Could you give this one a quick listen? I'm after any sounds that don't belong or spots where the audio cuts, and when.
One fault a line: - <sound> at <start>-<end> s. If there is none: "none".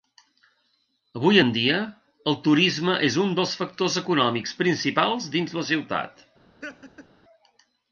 - laugh at 6.6-7.1 s